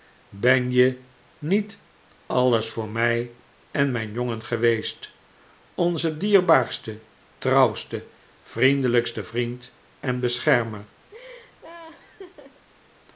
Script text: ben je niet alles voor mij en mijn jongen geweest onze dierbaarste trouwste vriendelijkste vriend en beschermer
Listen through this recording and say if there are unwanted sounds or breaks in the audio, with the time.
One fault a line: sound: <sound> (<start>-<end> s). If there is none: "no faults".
sound: laugh (11.1-12.6 s)